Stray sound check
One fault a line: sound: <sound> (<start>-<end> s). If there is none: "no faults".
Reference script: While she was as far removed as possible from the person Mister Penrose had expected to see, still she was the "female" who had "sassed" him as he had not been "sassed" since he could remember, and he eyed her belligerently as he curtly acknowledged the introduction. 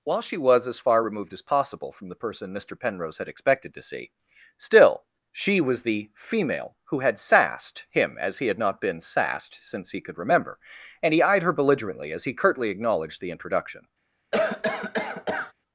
sound: cough (14.3-15.5 s)